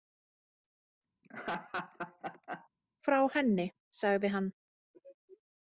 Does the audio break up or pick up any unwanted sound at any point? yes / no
yes